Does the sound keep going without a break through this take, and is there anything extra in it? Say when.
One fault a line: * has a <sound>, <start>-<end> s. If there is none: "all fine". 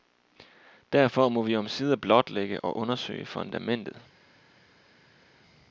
all fine